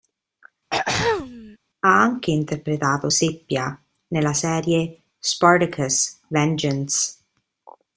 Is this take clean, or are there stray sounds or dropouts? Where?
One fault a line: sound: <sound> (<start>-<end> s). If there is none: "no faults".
sound: throat clearing (0.7-1.6 s)